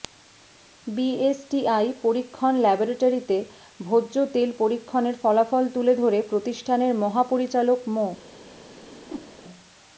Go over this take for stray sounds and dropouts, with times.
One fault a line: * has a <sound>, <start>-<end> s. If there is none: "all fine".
* has a whoosh, 8.8-9.3 s